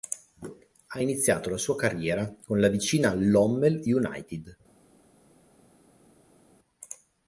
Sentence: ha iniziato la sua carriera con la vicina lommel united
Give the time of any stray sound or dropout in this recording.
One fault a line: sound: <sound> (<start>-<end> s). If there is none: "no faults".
no faults